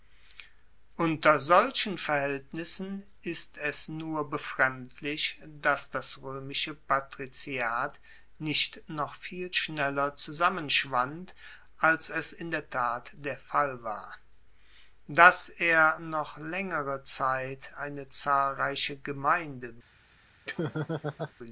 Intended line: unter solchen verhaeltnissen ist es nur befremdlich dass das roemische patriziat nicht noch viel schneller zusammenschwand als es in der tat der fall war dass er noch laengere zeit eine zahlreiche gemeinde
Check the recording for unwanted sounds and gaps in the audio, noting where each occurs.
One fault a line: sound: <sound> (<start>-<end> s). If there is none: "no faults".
sound: laugh (20.4-21.3 s)